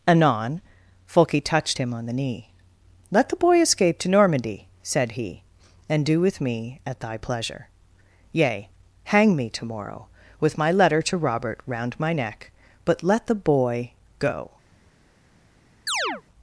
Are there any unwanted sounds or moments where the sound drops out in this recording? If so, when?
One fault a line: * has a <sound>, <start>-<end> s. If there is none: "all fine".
* has a chirp, 15.9-16.2 s